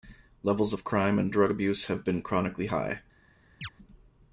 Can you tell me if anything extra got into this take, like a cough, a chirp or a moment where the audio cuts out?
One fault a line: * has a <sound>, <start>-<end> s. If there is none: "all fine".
* has a chirp, 3.6-3.7 s